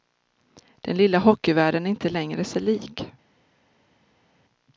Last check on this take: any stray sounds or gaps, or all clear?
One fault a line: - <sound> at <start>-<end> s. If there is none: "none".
none